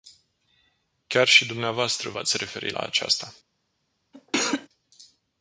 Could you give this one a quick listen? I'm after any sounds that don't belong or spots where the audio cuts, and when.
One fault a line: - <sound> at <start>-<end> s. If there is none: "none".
- cough at 4.1-4.7 s